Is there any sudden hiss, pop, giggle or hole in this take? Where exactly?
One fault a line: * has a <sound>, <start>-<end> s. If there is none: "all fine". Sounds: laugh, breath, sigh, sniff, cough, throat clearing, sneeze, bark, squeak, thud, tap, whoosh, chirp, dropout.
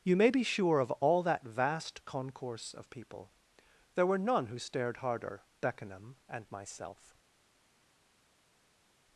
all fine